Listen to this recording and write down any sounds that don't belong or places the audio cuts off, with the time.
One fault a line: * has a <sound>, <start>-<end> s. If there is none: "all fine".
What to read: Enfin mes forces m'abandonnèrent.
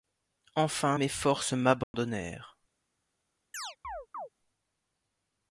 * has a dropout, 1.8-1.9 s
* has a chirp, 3.5-4.3 s